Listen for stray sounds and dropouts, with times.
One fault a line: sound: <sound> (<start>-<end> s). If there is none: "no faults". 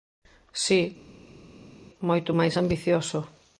no faults